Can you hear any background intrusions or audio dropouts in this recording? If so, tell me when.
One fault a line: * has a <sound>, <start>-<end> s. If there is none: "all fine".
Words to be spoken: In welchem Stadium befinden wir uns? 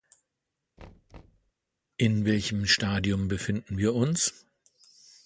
* has a thud, 0.8-1.5 s